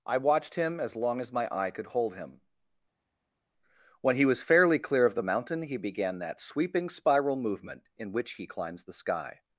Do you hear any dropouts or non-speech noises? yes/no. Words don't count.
no